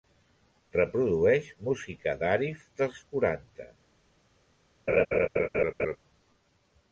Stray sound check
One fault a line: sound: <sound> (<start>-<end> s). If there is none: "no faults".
sound: laugh (4.9-6.0 s)